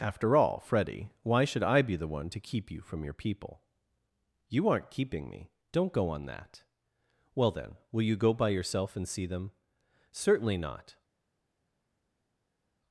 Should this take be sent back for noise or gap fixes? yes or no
no